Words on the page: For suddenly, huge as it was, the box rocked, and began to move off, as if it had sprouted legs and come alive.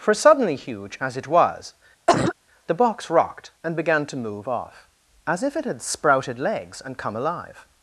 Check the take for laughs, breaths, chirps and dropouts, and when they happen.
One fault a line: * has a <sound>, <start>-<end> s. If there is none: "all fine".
* has a cough, 2.1-2.3 s